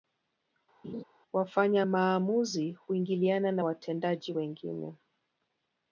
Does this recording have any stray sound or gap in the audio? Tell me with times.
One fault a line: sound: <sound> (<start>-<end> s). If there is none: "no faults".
sound: laugh (0.8-1.0 s)